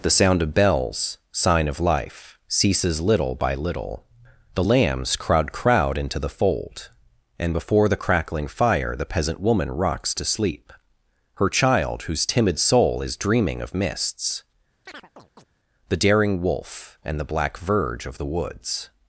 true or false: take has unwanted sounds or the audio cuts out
true